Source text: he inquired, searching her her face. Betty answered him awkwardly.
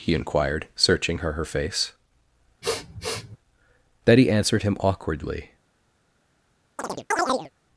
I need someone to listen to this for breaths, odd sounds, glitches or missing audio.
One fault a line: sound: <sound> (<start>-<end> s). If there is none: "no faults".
sound: sniff (2.6-3.4 s)
sound: chirp (6.8-7.5 s)